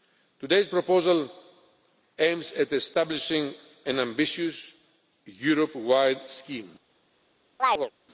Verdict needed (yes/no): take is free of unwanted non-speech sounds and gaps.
no